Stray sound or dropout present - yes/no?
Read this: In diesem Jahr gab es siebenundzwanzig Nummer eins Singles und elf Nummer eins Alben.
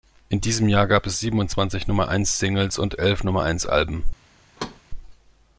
yes